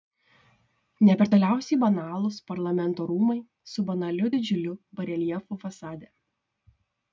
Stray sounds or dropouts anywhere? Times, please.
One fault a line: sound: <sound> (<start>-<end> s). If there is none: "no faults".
no faults